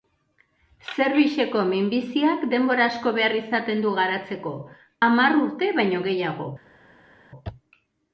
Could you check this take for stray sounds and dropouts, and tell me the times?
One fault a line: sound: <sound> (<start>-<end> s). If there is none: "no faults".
no faults